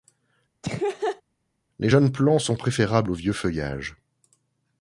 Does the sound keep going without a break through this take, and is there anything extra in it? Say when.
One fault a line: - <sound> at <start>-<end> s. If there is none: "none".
- laugh at 0.6-1.2 s